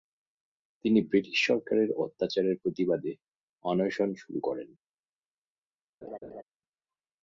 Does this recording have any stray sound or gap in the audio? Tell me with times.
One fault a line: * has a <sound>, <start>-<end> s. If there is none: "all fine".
* has a laugh, 6.0-6.4 s